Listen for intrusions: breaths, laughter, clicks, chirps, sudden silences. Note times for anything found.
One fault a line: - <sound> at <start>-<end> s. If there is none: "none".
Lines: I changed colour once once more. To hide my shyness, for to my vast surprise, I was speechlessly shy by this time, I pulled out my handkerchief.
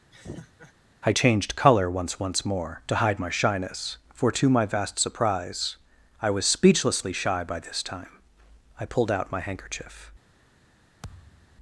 - laugh at 0.1-0.7 s
- thud at 11.0-11.6 s